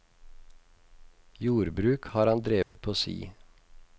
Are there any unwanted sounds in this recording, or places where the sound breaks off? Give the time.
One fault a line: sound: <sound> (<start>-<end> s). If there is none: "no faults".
sound: dropout (2.6-2.8 s)